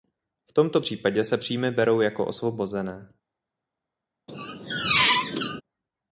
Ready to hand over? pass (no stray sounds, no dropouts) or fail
fail